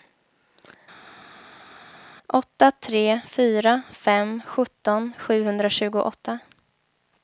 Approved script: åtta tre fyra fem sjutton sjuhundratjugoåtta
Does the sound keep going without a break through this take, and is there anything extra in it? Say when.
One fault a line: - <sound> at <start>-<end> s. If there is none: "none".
none